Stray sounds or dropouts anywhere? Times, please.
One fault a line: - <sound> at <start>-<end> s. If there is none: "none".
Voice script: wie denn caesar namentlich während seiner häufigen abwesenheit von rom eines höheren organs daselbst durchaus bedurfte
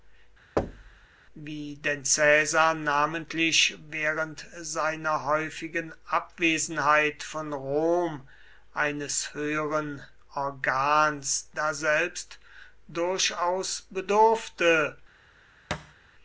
- thud at 0.6-1.1 s
- thud at 15.7-16.0 s